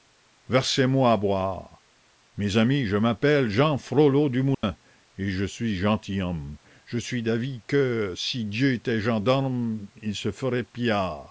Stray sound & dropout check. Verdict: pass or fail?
fail